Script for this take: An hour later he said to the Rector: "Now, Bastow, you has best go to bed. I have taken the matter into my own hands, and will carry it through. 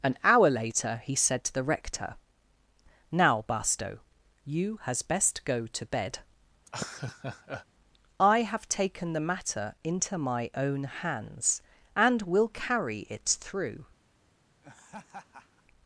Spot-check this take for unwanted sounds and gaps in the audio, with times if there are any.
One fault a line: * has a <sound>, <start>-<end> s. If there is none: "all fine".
* has a laugh, 6.7-7.7 s
* has a laugh, 14.6-15.6 s